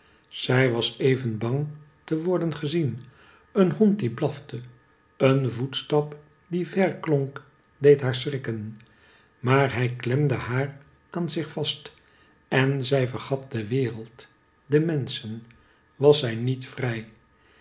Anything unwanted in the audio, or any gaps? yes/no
no